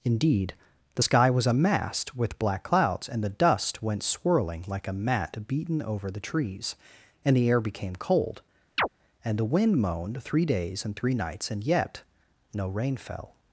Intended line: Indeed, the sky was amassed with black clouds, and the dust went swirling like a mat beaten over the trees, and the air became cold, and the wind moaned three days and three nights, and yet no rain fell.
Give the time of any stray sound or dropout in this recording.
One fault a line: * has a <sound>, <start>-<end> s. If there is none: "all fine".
* has a chirp, 8.8-8.9 s